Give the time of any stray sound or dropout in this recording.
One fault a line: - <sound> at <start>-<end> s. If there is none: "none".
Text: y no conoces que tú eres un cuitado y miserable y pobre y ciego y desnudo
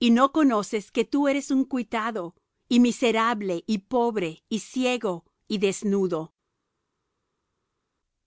none